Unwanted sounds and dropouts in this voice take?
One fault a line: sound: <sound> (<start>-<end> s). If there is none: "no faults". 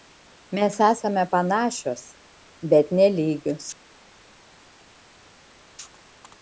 no faults